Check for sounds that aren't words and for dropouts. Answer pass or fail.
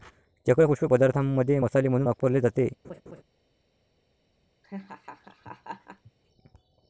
fail